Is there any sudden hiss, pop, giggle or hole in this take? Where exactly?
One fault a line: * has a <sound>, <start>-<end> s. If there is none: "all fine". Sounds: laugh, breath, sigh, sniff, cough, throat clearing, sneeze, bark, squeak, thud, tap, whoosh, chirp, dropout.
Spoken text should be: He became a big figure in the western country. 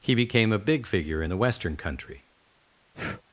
* has a breath, 2.9-3.2 s